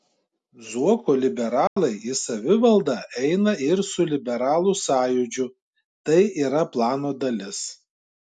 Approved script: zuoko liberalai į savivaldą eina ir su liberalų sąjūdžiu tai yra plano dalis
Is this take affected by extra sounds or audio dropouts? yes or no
yes